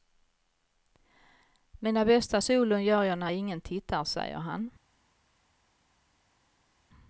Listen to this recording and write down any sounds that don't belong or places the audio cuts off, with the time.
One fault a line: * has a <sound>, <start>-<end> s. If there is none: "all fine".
all fine